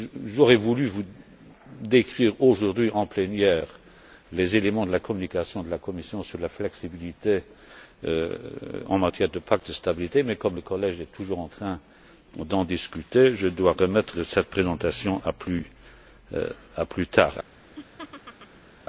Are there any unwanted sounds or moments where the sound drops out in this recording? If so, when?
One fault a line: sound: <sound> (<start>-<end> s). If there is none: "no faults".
sound: laugh (17.7-18.7 s)